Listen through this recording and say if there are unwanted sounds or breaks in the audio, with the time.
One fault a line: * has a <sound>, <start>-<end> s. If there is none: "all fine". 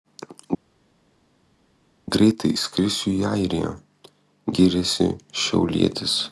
all fine